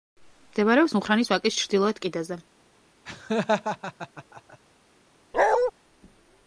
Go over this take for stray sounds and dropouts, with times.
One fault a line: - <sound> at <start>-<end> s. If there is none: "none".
- laugh at 3.1-4.6 s
- bark at 5.3-5.7 s